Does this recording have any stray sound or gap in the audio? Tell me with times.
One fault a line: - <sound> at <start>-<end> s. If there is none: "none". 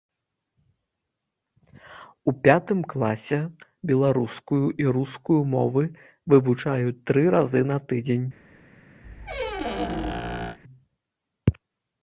- squeak at 9.0-10.6 s